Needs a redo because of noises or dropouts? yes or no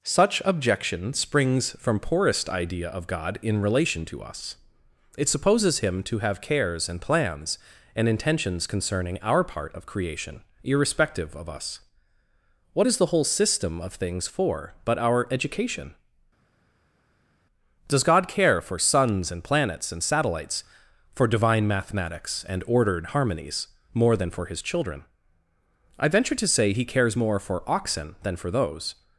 no